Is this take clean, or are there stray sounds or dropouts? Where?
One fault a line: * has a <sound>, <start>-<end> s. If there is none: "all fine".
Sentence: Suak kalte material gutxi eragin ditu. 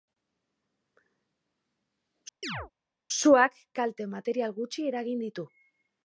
* has a chirp, 2.4-2.7 s